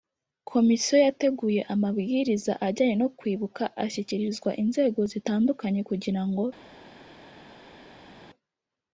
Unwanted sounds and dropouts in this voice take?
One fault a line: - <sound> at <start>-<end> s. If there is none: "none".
none